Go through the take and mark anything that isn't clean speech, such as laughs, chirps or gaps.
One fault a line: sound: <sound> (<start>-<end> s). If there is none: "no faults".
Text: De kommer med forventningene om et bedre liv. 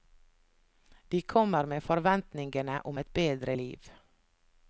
no faults